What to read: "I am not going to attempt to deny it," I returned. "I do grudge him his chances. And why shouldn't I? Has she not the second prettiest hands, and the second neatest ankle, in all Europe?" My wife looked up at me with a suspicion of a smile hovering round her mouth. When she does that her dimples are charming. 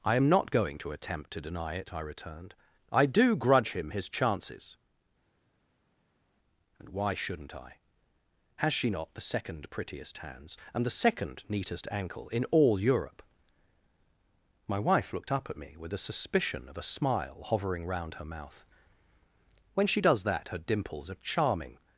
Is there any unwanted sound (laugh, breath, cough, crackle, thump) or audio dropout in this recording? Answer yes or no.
no